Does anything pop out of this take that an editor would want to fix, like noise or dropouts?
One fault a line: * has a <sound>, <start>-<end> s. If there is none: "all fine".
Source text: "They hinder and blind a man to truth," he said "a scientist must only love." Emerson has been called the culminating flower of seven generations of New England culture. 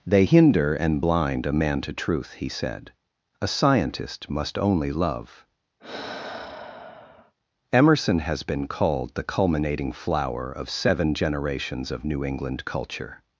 * has a sigh, 5.8-7.3 s